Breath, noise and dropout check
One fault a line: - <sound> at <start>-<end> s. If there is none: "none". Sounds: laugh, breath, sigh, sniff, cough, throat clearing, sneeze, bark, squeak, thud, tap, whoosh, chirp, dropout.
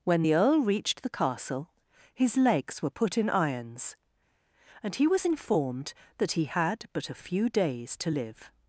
none